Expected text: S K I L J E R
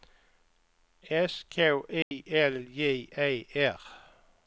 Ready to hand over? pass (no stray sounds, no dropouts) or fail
fail